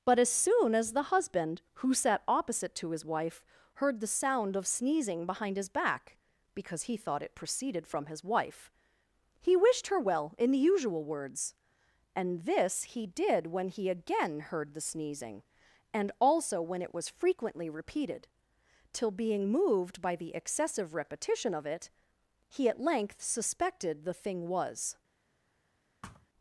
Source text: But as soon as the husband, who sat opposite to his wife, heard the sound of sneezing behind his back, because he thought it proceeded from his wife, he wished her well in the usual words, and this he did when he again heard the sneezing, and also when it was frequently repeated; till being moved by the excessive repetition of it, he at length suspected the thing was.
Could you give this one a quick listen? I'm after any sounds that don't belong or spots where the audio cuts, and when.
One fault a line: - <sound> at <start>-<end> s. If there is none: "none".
- thud at 26.0-26.3 s